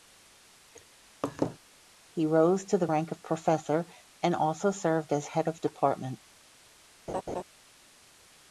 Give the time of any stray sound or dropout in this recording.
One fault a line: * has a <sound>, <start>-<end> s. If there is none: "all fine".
* has a laugh, 1.2-1.6 s
* has a laugh, 7.1-7.4 s